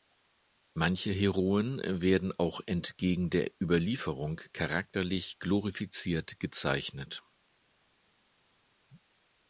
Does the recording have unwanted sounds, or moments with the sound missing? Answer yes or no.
no